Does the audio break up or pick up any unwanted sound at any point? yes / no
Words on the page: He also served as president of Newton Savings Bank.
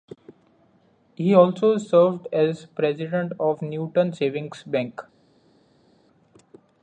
no